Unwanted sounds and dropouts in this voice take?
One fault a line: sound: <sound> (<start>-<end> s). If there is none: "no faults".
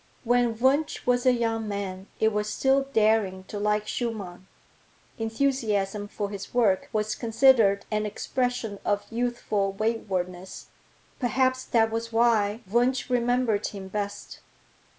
no faults